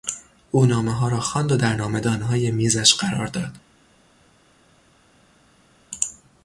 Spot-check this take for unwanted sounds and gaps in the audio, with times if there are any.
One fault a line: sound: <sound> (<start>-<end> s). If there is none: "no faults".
no faults